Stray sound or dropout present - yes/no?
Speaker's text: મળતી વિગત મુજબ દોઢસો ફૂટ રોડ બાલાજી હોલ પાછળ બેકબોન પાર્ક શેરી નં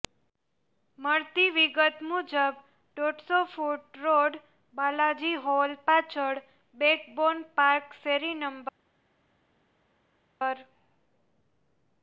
no